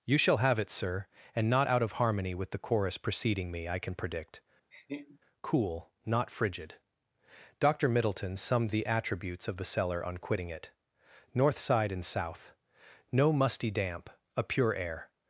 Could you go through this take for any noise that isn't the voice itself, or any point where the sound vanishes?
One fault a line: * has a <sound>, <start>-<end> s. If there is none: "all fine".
* has a laugh, 4.7-5.2 s